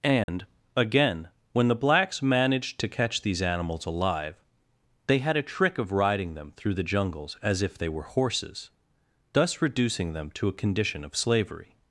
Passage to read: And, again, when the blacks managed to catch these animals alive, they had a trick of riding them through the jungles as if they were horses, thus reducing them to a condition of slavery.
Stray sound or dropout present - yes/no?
yes